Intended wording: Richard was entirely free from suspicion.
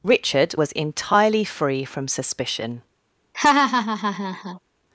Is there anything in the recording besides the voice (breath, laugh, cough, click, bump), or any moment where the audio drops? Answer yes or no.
yes